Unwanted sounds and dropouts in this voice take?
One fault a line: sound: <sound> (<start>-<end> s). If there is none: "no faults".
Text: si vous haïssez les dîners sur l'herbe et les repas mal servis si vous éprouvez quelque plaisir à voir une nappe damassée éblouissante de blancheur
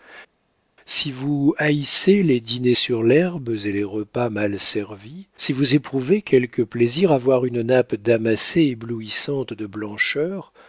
no faults